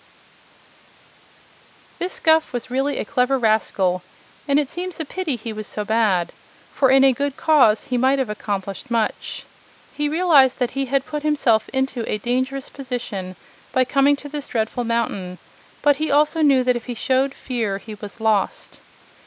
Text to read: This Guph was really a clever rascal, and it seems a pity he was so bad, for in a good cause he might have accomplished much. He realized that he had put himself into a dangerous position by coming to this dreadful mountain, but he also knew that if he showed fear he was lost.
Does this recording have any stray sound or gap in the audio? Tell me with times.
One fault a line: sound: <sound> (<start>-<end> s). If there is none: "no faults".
no faults